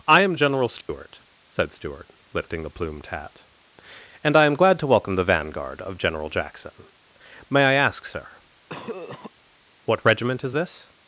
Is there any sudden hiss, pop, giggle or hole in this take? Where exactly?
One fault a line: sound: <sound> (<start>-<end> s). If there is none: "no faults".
sound: dropout (0.8-0.9 s)
sound: cough (8.7-9.3 s)